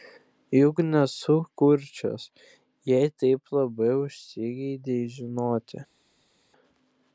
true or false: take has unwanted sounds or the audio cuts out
false